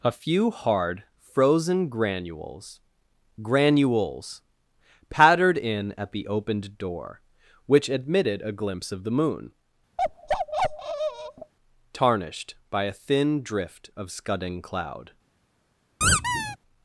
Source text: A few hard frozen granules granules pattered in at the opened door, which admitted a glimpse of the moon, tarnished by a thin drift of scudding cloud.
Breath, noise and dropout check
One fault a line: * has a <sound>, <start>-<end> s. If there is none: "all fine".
* has a bark, 10.0-11.5 s
* has a squeak, 16.0-16.6 s